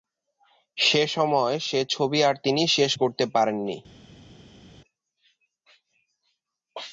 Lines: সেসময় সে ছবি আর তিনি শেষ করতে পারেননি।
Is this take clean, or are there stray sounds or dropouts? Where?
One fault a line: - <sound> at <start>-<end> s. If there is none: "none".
none